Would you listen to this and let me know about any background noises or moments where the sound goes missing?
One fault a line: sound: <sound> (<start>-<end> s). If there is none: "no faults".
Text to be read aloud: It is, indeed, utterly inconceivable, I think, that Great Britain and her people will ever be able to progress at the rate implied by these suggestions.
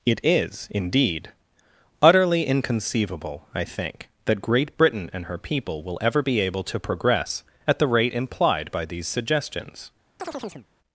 sound: chirp (10.2-10.7 s)